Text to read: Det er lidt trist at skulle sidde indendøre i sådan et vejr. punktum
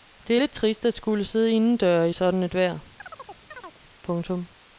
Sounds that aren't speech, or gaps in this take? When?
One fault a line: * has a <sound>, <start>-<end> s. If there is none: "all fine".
* has a chirp, 3.0-3.8 s